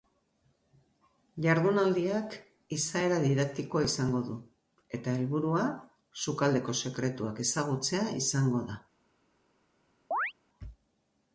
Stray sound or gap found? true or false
true